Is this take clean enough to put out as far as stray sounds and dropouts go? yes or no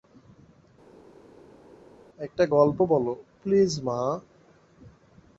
yes